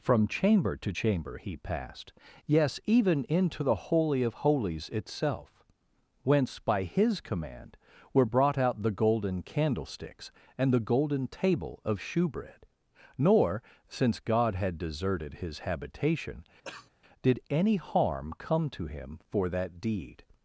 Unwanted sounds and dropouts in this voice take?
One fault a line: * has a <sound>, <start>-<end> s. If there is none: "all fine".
* has a cough, 16.6-16.9 s